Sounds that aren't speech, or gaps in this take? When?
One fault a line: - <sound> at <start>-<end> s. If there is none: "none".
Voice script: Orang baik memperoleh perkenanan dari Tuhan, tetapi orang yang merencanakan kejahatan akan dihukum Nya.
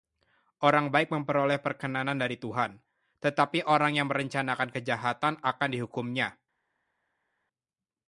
none